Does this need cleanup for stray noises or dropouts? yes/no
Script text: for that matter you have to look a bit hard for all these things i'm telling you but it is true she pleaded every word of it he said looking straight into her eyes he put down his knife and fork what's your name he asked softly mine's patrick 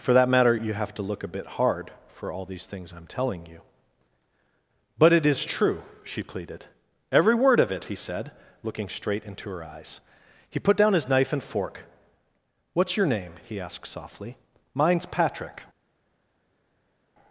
no